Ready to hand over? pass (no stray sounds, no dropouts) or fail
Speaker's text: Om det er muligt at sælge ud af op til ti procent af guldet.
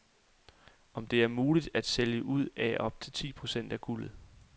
pass